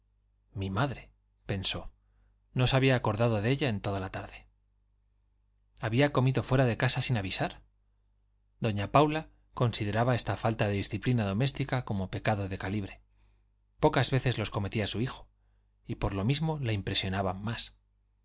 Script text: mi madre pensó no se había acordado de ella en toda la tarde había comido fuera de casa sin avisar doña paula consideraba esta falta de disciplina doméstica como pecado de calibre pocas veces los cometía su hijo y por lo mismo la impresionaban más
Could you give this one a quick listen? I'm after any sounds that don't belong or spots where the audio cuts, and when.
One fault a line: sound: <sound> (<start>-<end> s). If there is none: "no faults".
no faults